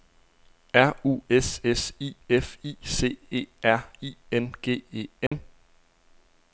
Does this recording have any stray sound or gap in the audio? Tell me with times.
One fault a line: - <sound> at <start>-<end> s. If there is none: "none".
- dropout at 5.3-5.3 s